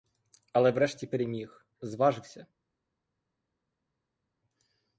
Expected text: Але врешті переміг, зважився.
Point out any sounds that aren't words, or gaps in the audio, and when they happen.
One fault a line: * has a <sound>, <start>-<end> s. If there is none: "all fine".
all fine